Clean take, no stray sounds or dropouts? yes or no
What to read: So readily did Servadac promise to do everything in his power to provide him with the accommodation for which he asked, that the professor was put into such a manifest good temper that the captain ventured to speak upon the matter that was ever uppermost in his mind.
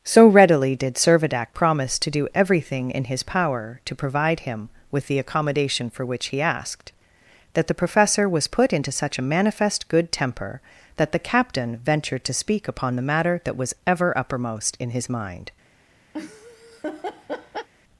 no